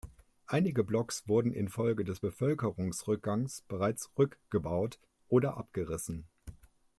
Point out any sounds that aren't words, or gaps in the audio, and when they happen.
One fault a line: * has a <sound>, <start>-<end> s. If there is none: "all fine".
all fine